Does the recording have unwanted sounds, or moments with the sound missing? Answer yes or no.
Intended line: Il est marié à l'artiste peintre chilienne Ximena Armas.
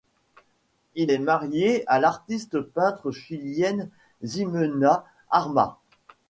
no